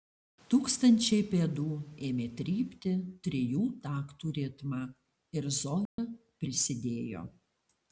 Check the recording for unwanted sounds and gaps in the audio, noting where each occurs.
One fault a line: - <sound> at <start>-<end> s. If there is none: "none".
- dropout at 5.9-6.0 s